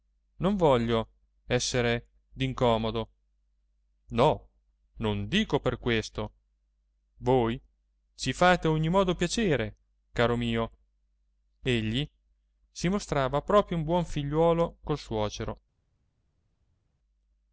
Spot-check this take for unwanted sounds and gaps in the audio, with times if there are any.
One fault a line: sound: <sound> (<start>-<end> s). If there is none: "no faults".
no faults